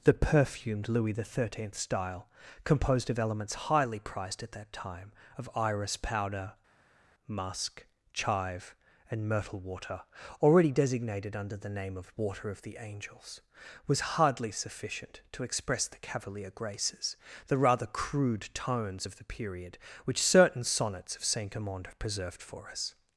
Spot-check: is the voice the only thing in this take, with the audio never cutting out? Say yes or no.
yes